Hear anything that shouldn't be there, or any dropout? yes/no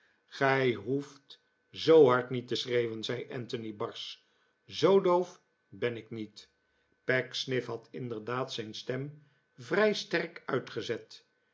no